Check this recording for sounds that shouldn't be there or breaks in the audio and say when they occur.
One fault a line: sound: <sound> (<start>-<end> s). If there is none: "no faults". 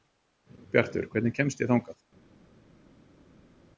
no faults